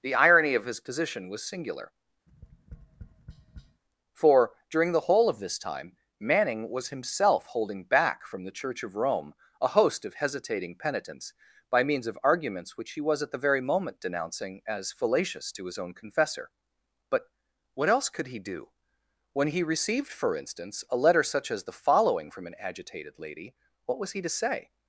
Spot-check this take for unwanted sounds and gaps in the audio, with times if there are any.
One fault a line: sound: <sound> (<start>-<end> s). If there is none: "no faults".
sound: tap (2.3-3.8 s)